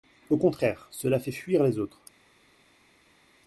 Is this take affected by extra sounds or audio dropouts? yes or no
no